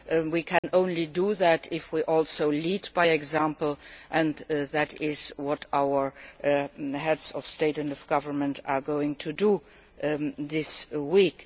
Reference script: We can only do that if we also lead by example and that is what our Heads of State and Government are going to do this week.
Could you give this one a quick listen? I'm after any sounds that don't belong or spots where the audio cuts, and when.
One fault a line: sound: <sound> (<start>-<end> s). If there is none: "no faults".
sound: dropout (0.6-0.6 s)